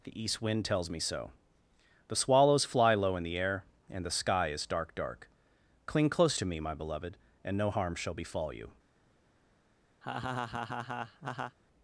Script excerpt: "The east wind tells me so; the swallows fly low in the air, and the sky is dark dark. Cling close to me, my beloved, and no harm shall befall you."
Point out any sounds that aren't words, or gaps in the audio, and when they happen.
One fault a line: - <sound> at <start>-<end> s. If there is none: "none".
- laugh at 10.0-11.6 s